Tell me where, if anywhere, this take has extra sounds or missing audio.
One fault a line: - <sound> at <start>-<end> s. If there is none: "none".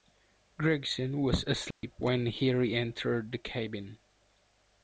- dropout at 1.7-1.8 s